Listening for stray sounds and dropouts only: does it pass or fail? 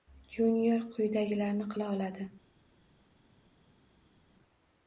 pass